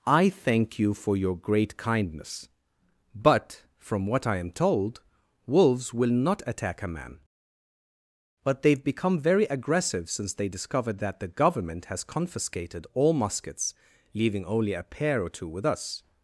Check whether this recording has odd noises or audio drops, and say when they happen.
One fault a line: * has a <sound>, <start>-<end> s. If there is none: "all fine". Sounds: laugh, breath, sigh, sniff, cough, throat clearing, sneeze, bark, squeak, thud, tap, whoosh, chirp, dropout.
all fine